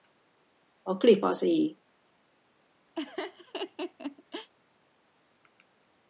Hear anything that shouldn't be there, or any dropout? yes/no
yes